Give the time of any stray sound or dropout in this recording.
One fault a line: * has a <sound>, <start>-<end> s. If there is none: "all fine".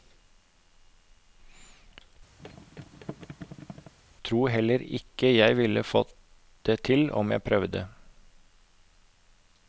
* has a thud, 2.4-3.9 s